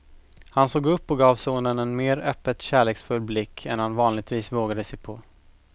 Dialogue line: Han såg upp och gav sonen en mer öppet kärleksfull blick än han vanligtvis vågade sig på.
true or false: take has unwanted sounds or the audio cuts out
false